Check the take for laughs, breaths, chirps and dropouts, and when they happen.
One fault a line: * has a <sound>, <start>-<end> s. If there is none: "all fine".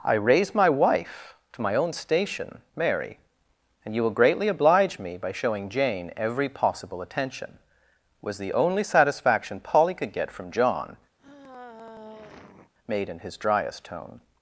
* has a sigh, 11.2-12.7 s